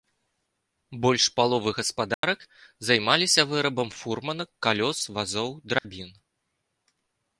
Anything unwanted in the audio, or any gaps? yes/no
yes